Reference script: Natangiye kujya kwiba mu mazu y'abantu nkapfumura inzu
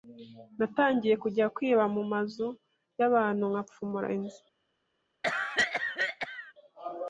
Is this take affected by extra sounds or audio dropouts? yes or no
yes